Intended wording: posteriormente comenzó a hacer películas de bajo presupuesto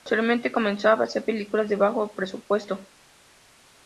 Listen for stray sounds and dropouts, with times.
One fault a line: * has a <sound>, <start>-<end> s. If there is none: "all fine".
all fine